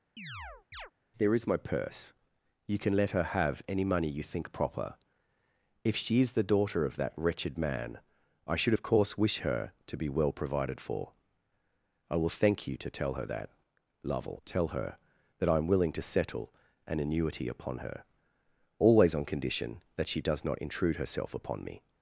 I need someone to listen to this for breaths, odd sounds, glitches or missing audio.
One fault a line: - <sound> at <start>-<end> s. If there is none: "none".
- chirp at 0.2-0.9 s